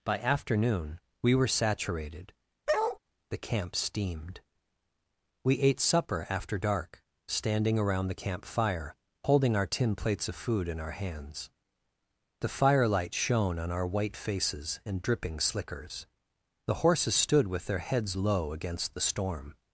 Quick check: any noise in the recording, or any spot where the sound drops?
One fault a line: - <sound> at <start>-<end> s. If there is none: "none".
- bark at 2.7-3.0 s